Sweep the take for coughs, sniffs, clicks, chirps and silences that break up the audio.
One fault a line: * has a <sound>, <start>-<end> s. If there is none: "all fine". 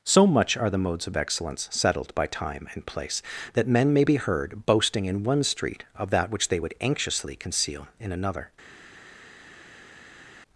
all fine